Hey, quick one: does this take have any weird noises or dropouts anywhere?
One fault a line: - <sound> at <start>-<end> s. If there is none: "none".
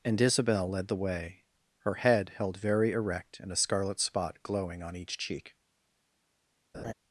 - laugh at 6.7-6.9 s